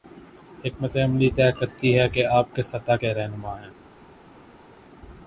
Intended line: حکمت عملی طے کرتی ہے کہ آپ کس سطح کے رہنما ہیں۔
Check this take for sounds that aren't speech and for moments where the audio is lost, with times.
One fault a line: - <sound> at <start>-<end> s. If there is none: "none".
none